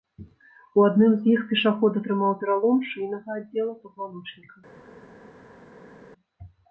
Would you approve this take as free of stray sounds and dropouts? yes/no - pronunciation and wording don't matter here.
yes